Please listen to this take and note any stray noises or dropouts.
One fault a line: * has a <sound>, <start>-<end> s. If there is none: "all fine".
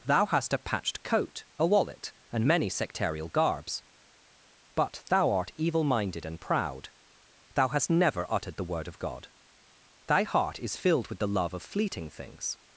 all fine